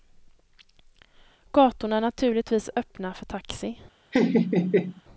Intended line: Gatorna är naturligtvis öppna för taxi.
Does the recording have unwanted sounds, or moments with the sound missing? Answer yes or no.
yes